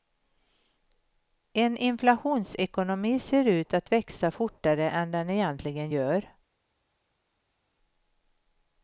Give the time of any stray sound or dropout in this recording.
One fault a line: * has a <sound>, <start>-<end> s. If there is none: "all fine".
all fine